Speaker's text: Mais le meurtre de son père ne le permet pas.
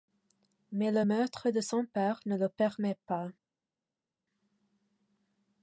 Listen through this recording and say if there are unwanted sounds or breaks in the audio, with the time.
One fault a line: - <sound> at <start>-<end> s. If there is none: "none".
none